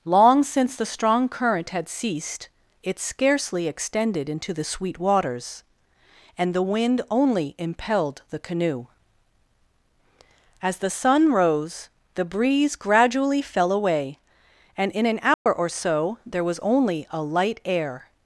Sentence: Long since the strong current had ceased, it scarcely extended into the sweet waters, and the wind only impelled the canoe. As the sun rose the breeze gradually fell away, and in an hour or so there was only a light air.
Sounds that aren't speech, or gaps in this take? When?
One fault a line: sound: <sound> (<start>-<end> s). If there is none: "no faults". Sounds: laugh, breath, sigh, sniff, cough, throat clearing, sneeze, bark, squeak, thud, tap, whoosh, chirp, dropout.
sound: dropout (15.3-15.5 s)